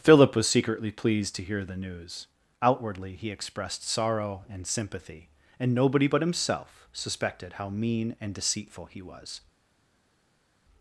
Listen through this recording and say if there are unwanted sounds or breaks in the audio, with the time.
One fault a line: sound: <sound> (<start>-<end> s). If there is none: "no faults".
no faults